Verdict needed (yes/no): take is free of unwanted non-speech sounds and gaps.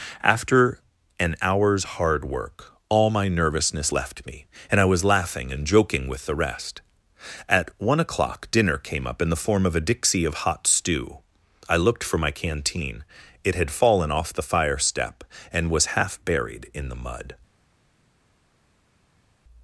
yes